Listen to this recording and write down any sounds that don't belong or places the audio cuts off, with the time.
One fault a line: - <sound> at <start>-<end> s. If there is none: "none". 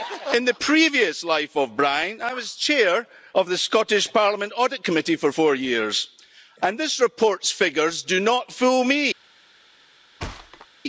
- thud at 10.2-10.7 s